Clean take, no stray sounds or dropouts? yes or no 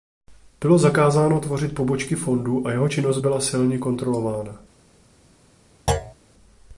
no